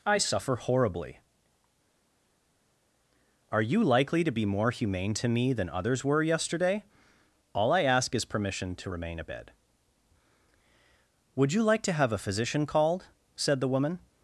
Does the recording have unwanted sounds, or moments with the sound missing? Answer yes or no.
no